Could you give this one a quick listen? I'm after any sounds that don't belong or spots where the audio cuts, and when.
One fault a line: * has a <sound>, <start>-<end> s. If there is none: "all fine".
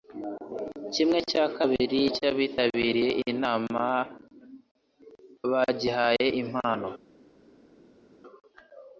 all fine